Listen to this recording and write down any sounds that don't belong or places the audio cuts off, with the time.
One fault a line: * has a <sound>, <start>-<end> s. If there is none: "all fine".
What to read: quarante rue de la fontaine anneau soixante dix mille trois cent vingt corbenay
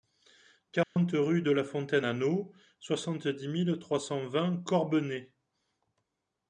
* has a dropout, 0.8-1.0 s